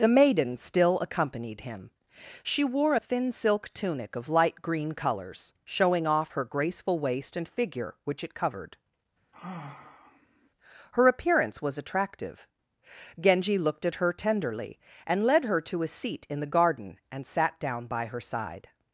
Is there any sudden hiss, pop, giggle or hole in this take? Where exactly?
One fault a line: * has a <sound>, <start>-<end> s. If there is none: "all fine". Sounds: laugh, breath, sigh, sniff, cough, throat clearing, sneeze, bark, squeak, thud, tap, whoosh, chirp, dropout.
* has a sigh, 9.3-10.5 s